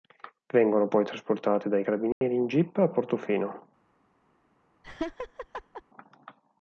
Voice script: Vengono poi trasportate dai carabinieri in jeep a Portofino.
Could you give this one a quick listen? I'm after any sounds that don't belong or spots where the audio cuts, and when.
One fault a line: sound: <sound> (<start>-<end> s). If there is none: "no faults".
sound: dropout (2.1-2.2 s)
sound: laugh (4.8-5.8 s)